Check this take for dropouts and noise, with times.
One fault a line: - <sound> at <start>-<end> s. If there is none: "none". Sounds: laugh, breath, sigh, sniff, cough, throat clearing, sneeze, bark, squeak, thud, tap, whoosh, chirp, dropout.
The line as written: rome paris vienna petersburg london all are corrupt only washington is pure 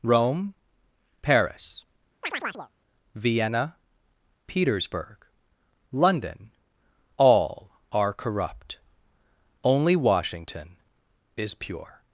- chirp at 2.2-2.7 s